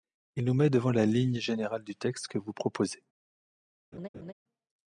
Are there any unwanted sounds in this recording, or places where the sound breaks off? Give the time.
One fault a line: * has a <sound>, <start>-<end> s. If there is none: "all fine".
* has a laugh, 3.9-4.3 s